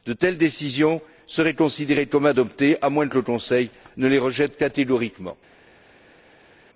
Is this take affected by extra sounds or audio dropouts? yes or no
no